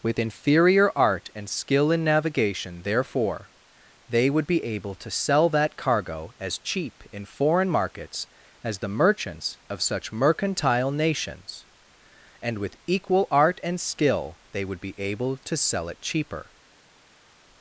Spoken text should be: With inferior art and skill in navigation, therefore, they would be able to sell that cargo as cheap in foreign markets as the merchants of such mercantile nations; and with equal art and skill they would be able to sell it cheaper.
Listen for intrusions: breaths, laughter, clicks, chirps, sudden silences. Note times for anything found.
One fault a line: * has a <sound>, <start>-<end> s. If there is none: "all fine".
all fine